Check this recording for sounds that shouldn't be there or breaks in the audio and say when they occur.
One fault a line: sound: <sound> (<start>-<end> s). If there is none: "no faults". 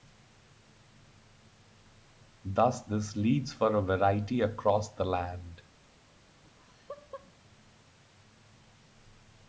sound: laugh (6.4-7.4 s)